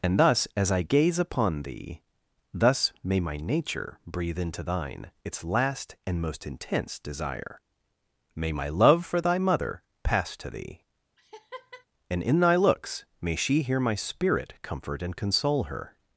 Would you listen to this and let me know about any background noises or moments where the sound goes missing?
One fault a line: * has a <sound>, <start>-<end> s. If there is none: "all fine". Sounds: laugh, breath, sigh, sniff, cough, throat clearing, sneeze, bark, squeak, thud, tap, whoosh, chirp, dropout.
* has a laugh, 11.2-11.9 s